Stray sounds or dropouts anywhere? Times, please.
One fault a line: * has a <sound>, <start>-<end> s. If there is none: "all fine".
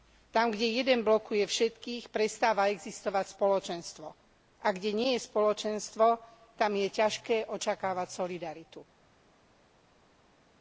all fine